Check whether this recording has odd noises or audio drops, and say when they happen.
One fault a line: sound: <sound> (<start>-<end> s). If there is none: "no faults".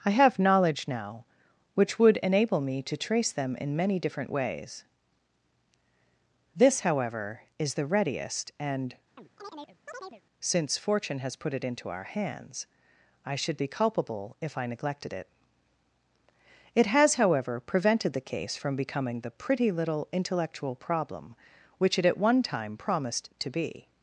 sound: chirp (9.2-10.2 s)